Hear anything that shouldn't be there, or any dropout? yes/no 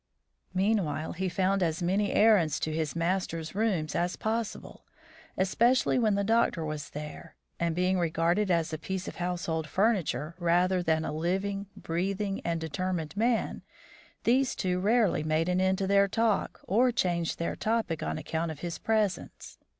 no